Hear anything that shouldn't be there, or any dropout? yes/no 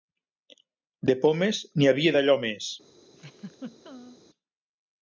yes